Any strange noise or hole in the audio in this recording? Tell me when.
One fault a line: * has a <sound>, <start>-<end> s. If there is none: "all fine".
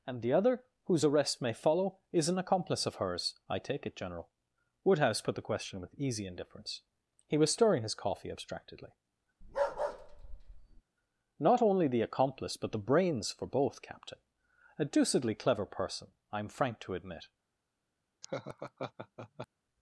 * has a bark, 9.4-10.8 s
* has a laugh, 18.2-19.5 s